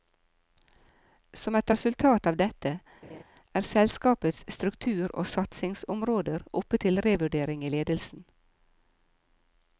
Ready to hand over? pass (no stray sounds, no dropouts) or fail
fail